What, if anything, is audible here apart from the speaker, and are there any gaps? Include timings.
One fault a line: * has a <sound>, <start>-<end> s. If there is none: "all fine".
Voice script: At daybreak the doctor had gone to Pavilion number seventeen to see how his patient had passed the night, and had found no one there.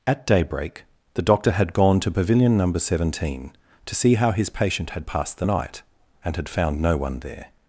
all fine